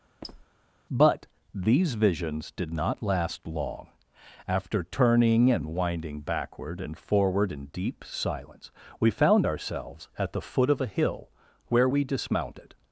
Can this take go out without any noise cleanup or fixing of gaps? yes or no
no